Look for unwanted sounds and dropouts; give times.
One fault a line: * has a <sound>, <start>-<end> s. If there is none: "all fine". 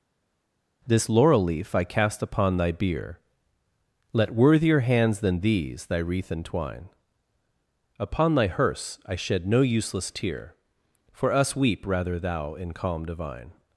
all fine